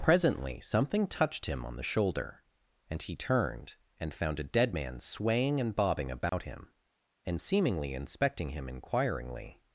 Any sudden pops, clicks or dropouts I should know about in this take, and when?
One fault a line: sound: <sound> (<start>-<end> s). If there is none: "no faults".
sound: dropout (6.3-6.3 s)